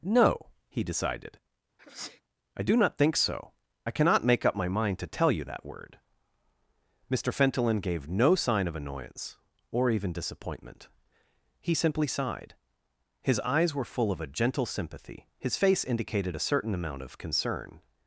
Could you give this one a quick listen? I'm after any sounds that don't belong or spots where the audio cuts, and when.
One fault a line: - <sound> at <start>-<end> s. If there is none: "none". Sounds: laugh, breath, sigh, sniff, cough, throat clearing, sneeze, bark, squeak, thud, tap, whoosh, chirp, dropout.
- sneeze at 1.8-2.2 s